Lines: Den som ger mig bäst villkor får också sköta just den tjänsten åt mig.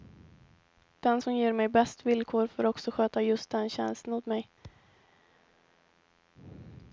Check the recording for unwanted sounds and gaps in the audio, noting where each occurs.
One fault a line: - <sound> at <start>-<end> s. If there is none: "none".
- thud at 4.6-5.0 s